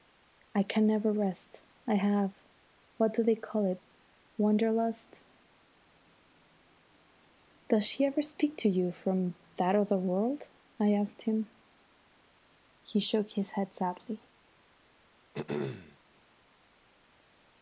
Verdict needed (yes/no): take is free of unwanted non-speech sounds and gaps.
no